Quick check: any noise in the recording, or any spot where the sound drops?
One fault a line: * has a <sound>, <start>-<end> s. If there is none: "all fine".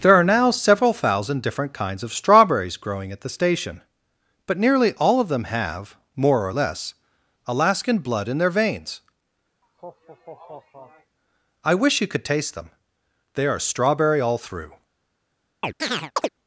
* has a laugh, 9.6-11.2 s
* has a chirp, 15.6-16.3 s